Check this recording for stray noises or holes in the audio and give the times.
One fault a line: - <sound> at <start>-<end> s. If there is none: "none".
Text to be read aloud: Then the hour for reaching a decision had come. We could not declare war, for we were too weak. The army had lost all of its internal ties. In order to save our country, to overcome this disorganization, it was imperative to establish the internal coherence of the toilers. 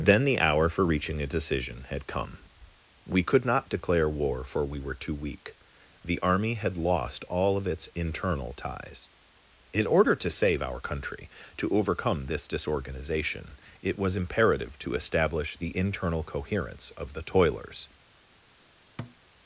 - thud at 19.0-19.2 s